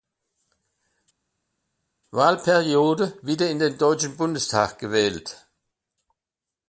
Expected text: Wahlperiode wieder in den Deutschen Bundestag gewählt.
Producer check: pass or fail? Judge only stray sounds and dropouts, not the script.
pass